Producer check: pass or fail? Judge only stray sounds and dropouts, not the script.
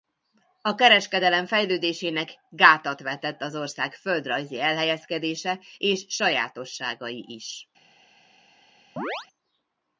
fail